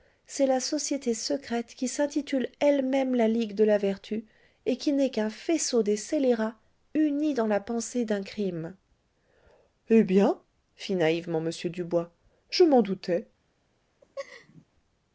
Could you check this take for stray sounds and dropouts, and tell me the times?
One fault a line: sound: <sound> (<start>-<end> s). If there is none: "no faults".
sound: laugh (14.0-14.6 s)